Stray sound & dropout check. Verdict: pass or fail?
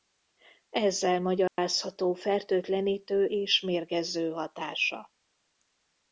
fail